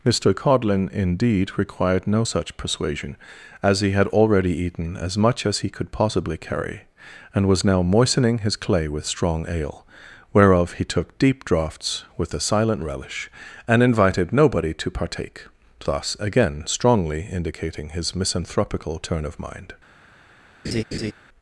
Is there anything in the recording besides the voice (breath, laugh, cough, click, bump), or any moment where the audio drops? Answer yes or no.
yes